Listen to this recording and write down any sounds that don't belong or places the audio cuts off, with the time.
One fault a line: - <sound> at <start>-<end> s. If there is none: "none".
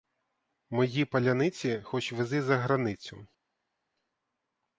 none